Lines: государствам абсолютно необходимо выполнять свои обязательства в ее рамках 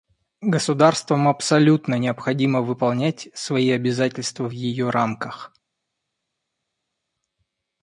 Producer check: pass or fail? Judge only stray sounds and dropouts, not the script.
pass